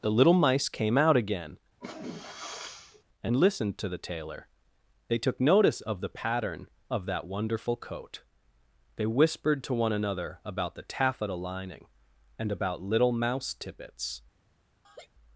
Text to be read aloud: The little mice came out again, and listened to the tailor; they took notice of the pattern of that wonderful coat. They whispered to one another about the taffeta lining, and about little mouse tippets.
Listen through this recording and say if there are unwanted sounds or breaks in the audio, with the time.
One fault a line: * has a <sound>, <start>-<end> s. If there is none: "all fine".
* has a sneeze, 1.8-3.0 s
* has a laugh, 14.8-15.1 s